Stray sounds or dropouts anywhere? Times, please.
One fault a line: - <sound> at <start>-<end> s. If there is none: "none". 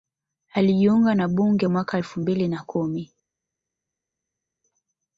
none